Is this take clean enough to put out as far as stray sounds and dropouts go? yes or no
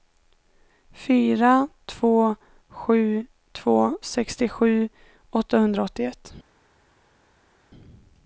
yes